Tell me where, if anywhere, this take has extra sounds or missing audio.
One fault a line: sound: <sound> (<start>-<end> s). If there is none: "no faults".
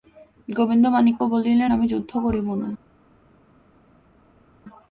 no faults